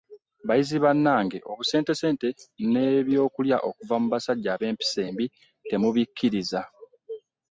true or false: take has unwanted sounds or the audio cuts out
false